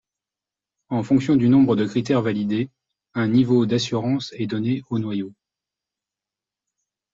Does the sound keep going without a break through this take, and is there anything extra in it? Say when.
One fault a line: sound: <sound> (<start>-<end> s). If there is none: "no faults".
no faults